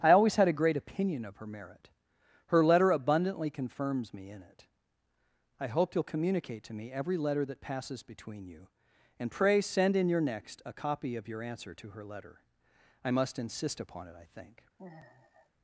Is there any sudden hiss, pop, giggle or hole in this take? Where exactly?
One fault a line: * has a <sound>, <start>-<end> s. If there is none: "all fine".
* has a sigh, 14.8-15.5 s